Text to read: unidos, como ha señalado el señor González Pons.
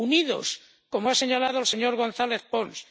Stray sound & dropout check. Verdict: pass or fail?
pass